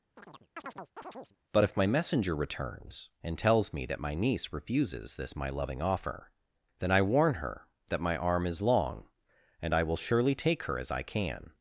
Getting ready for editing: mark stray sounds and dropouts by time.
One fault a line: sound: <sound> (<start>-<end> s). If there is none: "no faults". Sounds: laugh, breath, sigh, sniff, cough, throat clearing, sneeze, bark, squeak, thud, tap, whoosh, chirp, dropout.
sound: chirp (0.2-1.4 s)